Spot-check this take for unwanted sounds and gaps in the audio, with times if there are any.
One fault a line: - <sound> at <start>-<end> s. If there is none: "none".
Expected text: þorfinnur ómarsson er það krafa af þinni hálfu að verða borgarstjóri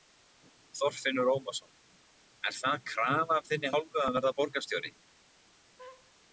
- laugh at 5.8-6.1 s